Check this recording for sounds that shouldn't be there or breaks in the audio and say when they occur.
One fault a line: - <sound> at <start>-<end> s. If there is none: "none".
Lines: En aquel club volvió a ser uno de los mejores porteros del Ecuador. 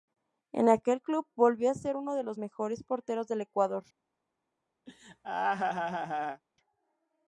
- laugh at 4.9-6.4 s